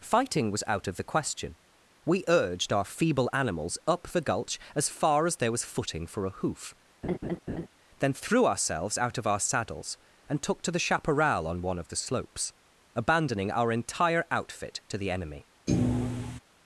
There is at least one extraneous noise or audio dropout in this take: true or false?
true